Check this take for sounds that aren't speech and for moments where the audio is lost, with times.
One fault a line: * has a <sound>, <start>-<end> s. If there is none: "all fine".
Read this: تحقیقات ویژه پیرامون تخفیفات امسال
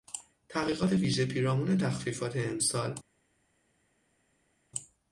all fine